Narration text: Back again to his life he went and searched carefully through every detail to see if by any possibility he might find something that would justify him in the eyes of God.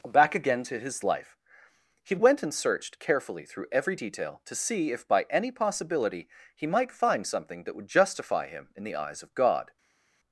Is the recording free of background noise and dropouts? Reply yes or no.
yes